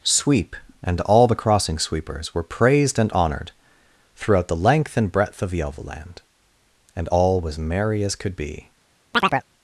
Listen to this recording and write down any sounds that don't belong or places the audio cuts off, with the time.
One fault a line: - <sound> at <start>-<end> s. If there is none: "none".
- chirp at 9.1-9.5 s